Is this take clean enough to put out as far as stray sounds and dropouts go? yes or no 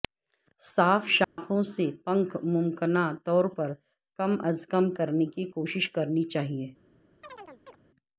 no